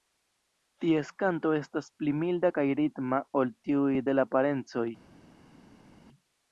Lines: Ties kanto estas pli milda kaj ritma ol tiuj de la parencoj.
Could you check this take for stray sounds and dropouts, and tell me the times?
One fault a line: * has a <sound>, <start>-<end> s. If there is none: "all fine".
all fine